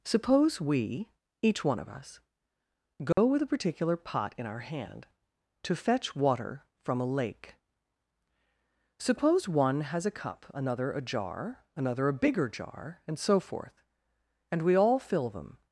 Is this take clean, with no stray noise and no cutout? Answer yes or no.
no